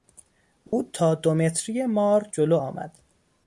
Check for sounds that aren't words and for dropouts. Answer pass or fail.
fail